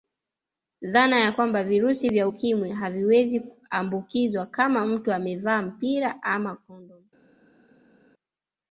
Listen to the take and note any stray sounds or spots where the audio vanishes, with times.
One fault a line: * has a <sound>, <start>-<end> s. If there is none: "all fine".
all fine